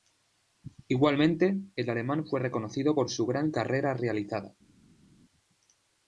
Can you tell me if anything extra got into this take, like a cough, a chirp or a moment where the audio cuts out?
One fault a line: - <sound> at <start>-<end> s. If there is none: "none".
none